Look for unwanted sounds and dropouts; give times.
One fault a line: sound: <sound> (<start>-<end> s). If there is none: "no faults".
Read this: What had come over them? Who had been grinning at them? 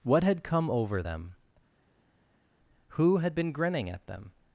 no faults